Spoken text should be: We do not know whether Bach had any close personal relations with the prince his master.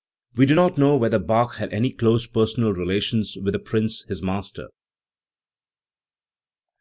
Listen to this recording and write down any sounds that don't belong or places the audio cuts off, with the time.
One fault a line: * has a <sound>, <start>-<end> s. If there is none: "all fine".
all fine